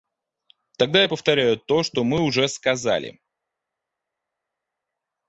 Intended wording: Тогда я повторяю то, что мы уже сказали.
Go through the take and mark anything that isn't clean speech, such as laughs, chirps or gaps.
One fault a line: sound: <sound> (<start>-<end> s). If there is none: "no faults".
no faults